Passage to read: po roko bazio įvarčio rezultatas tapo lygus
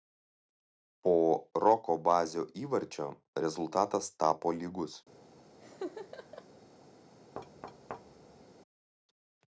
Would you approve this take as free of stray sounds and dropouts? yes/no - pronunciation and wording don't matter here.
no